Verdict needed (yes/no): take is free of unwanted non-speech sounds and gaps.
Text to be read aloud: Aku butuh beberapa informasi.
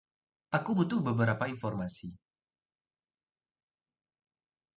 yes